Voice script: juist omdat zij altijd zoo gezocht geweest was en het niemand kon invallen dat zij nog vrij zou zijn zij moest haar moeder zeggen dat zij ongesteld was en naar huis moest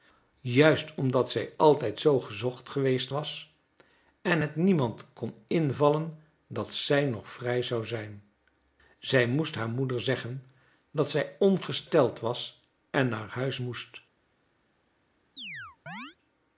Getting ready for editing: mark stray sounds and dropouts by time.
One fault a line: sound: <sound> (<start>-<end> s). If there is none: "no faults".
sound: chirp (15.4-16.2 s)